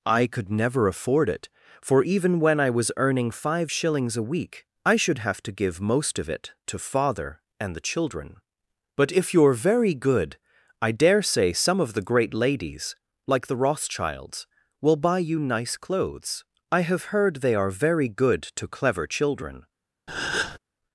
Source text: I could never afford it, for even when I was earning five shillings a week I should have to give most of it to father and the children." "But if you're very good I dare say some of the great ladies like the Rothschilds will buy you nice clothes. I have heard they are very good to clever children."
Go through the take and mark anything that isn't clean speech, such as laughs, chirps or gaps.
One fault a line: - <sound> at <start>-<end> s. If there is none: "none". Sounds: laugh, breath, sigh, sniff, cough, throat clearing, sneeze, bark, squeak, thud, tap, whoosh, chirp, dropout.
- breath at 20.1-20.6 s